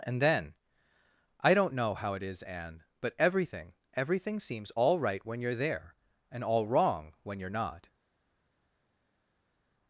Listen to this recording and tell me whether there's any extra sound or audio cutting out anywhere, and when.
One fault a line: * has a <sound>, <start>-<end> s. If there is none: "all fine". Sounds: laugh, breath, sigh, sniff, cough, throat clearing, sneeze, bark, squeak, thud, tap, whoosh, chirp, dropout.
all fine